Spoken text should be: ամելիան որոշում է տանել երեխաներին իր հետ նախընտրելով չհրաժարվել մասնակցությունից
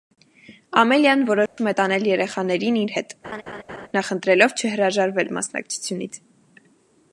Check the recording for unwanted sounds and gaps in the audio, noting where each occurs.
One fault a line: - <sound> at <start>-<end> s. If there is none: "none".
- dropout at 1.5-1.6 s
- laugh at 3.2-3.9 s